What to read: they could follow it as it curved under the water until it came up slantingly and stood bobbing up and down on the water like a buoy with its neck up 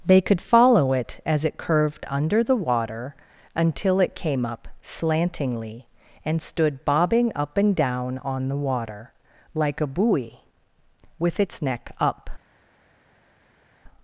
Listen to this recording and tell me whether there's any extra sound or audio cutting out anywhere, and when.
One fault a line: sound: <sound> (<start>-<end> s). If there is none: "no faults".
no faults